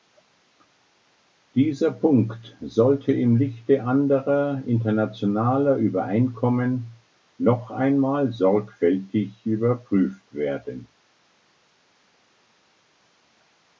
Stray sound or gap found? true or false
false